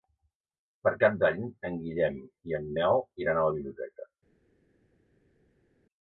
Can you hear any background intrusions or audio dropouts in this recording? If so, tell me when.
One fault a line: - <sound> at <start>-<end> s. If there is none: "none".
none